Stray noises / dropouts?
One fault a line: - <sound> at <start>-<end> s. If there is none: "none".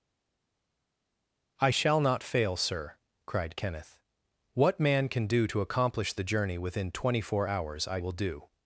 none